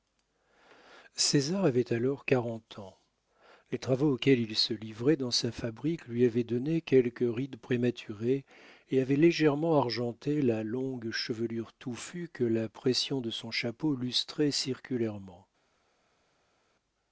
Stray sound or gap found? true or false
false